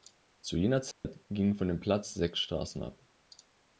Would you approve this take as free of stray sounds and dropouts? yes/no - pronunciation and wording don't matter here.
no